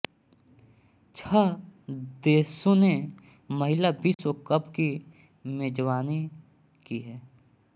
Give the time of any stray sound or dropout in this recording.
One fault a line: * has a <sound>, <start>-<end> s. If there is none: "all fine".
* has a dropout, 4.1-4.2 s